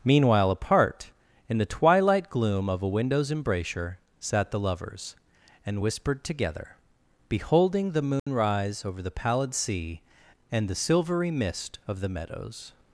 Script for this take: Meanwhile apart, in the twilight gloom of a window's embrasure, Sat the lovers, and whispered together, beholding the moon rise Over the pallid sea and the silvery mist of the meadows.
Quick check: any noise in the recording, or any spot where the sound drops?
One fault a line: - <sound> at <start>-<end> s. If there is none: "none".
- dropout at 8.2-8.3 s